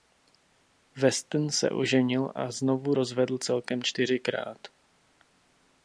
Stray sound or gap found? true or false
false